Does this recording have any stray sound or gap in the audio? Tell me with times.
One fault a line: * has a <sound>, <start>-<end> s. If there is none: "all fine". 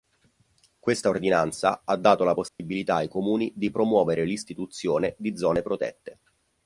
* has a dropout, 2.5-2.6 s